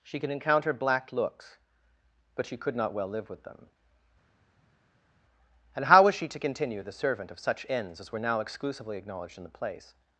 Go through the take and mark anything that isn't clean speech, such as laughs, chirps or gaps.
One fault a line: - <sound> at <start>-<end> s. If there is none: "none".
none